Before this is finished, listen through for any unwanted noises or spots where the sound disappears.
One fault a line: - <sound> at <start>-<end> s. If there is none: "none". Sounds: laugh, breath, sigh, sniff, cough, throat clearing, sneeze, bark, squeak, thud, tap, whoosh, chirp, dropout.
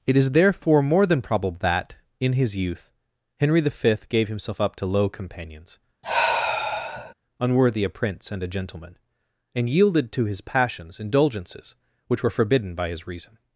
- sigh at 6.0-7.1 s